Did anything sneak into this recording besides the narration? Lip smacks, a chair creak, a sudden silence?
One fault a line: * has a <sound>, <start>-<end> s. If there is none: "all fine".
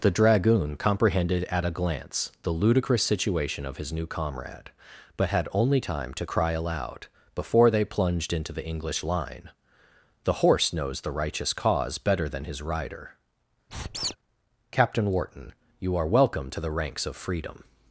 * has a squeak, 13.7-14.2 s